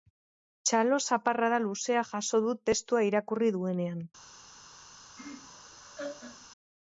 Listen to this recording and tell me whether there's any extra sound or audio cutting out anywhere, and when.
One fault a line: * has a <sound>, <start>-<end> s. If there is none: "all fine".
* has a laugh, 5.2-6.5 s